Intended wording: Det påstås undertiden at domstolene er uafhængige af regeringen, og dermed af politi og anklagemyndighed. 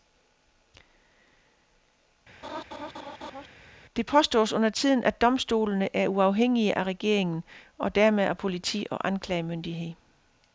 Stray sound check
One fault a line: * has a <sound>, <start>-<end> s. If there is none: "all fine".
* has a laugh, 2.4-3.5 s